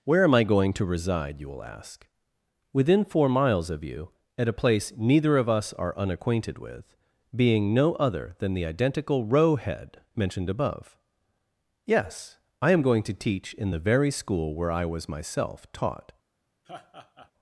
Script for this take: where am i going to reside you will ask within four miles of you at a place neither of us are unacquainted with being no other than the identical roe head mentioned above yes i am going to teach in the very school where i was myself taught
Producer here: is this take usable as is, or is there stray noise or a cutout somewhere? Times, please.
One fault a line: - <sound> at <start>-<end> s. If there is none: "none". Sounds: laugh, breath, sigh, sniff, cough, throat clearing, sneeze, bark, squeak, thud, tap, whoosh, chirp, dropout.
- laugh at 16.6-17.3 s